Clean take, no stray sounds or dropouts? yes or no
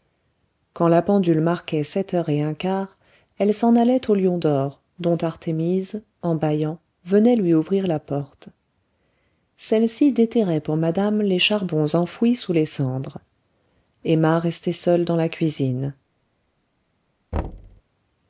no